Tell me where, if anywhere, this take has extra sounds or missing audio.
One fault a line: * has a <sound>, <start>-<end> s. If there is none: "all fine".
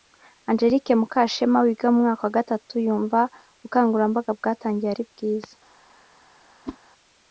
* has a whoosh, 6.7-6.8 s